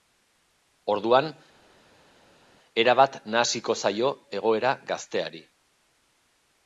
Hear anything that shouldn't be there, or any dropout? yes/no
no